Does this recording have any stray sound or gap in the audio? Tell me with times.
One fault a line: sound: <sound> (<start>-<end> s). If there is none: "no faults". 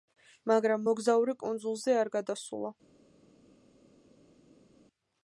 no faults